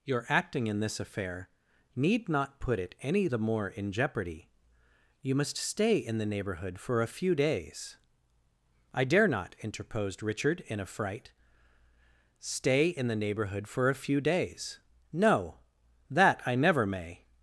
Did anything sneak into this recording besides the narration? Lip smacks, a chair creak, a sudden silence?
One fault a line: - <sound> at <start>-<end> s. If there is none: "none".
none